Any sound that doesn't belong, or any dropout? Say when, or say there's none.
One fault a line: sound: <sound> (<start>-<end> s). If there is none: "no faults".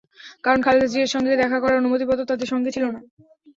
no faults